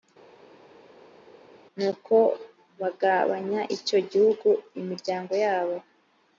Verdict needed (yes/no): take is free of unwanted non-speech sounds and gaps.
yes